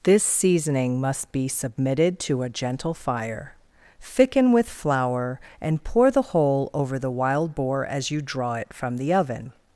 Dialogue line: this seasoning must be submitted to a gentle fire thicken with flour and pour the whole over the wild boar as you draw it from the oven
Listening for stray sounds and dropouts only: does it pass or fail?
pass